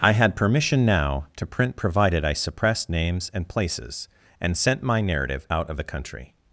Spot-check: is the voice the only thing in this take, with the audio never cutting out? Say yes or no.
yes